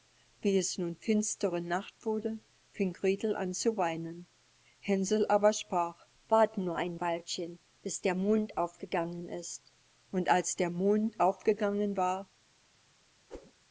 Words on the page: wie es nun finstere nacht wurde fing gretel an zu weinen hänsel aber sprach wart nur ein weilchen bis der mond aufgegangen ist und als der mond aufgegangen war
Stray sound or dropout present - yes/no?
yes